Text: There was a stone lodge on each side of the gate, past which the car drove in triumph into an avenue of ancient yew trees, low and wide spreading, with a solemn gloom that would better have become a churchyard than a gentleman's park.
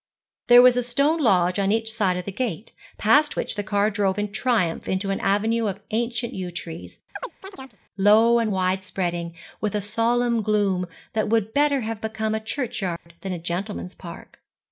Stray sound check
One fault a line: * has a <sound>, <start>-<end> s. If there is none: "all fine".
* has a chirp, 7.2-7.8 s
* has a dropout, 13.0-13.1 s